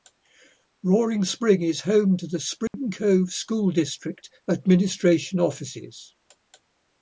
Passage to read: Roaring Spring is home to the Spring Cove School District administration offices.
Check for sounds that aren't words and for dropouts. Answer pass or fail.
fail